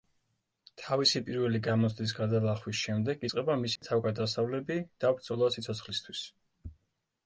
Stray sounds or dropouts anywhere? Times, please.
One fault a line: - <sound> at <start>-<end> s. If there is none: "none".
- dropout at 3.8-3.8 s